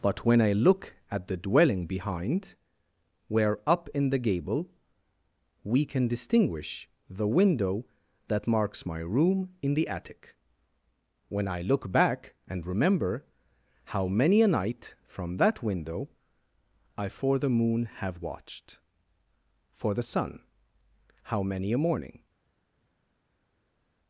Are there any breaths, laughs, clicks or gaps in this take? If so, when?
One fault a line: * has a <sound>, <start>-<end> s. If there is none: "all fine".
all fine